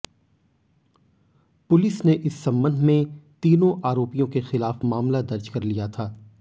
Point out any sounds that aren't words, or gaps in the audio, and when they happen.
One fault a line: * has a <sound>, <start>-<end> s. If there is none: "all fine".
all fine